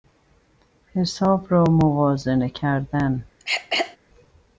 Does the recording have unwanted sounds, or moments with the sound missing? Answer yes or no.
yes